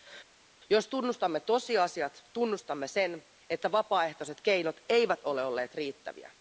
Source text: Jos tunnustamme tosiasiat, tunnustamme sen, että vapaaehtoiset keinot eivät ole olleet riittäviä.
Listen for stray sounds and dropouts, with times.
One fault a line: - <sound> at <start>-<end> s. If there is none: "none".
none